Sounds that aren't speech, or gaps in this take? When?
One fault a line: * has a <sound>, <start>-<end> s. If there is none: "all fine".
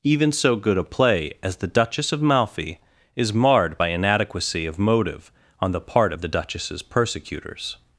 all fine